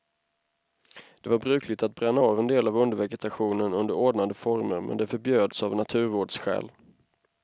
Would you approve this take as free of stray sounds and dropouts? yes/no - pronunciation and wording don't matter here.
yes